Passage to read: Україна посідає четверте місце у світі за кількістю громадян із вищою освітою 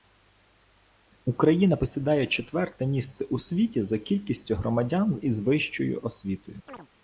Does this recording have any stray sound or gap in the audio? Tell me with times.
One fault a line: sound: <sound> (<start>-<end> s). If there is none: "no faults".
sound: chirp (6.7-6.9 s)